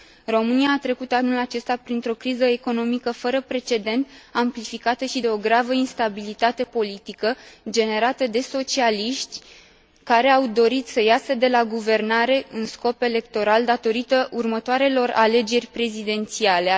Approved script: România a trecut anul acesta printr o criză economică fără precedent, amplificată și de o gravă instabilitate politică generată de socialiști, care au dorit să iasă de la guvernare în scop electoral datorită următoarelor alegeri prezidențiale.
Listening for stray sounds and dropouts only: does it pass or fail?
pass